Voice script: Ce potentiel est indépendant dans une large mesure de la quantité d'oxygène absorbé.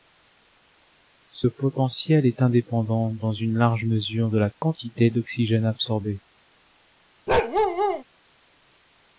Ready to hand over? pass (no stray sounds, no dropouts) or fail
fail